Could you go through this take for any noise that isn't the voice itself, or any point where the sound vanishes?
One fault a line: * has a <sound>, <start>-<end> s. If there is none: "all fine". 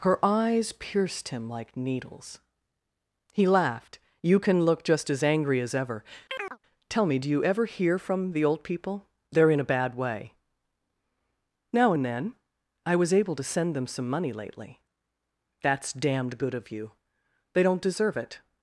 * has a chirp, 6.3-6.6 s